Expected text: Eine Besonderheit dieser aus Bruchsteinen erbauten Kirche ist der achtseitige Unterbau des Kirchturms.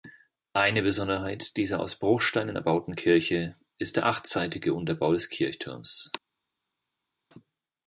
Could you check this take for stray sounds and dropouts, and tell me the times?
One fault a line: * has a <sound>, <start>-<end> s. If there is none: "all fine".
all fine